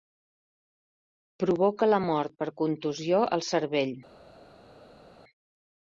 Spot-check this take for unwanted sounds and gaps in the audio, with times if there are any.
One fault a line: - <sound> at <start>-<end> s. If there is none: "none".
none